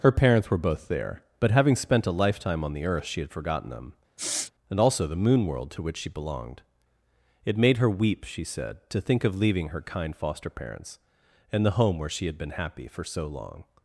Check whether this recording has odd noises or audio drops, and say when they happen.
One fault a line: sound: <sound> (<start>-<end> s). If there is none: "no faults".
sound: sniff (4.2-4.5 s)